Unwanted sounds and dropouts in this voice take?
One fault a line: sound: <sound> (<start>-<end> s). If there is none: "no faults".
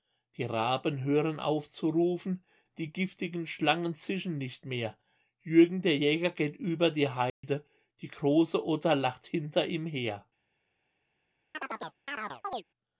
sound: dropout (7.3-7.4 s)
sound: chirp (11.5-12.6 s)